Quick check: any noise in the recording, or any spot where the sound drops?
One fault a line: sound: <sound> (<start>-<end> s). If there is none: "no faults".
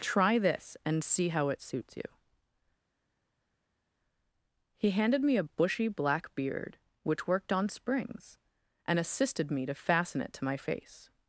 no faults